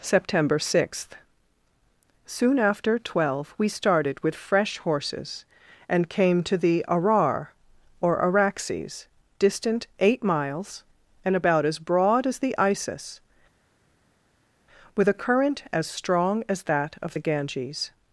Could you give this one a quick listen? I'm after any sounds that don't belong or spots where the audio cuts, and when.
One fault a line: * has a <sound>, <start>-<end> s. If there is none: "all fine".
all fine